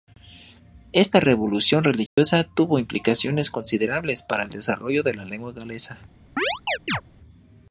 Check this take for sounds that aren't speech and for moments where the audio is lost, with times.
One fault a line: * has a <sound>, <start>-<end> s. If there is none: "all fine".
* has a dropout, 2.1-2.2 s
* has a chirp, 6.4-7.0 s